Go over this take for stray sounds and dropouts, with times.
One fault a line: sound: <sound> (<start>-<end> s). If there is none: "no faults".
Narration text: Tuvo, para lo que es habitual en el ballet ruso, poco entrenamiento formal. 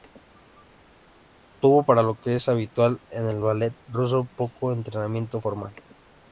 no faults